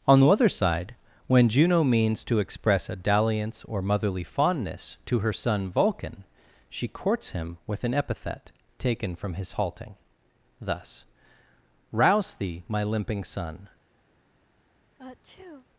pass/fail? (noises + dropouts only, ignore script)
fail